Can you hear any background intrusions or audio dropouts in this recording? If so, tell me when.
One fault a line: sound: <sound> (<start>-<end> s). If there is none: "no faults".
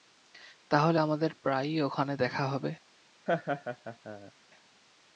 sound: laugh (3.3-4.3 s)